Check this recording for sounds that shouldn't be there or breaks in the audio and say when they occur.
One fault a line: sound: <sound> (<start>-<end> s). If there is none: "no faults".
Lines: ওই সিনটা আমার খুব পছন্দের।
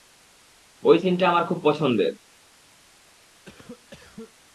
sound: cough (3.4-4.3 s)